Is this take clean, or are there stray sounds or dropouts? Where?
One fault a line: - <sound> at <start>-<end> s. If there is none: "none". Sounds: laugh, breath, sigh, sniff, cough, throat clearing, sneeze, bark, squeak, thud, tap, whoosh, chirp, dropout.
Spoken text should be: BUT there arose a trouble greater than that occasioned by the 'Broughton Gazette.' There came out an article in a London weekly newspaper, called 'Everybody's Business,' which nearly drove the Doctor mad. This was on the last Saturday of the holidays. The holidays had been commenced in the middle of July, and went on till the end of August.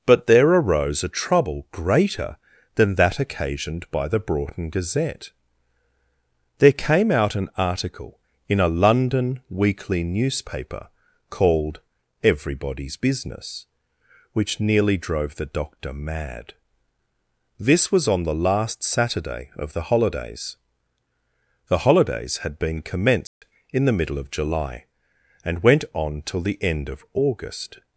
- dropout at 23.3-23.4 s